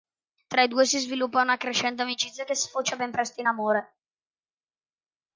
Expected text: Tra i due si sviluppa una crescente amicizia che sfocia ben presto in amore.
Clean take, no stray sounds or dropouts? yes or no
yes